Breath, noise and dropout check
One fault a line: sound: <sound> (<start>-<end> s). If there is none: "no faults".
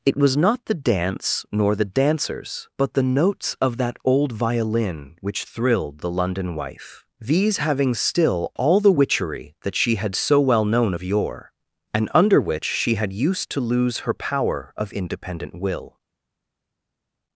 no faults